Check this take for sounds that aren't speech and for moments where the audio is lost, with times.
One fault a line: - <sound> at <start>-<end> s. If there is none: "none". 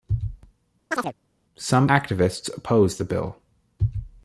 - chirp at 0.9-1.1 s